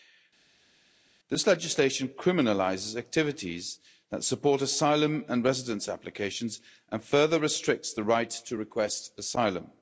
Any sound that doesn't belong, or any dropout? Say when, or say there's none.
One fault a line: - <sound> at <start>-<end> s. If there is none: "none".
none